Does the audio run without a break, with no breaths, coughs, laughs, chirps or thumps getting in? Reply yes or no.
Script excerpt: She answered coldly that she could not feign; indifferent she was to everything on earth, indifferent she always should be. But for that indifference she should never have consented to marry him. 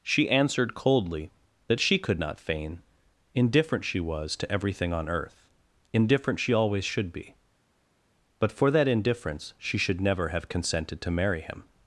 yes